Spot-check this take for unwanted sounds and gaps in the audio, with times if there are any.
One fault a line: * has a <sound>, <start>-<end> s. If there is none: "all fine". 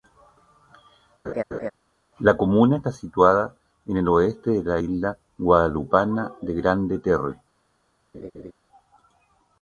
* has a laugh, 1.2-1.7 s
* has a laugh, 8.1-8.5 s